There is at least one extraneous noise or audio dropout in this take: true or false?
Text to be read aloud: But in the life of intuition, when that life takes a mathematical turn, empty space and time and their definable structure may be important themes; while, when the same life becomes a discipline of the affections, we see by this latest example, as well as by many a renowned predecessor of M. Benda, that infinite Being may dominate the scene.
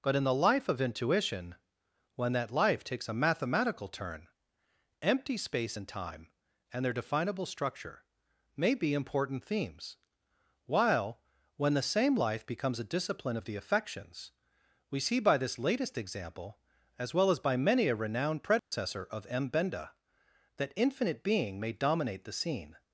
true